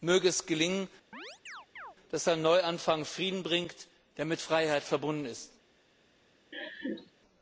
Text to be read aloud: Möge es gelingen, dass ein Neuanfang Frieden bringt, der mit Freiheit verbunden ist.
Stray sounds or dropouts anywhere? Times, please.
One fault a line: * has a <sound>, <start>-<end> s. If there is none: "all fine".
* has a chirp, 1.1-2.0 s
* has a laugh, 6.5-7.1 s